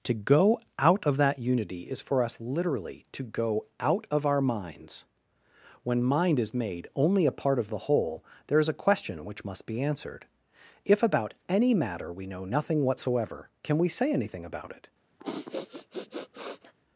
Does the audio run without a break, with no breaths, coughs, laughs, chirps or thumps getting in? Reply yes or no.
no